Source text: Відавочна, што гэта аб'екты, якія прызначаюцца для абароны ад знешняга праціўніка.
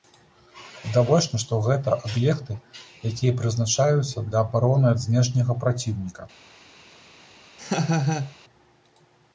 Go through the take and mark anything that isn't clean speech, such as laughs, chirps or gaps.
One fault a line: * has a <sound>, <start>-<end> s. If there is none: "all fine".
* has a laugh, 7.6-8.4 s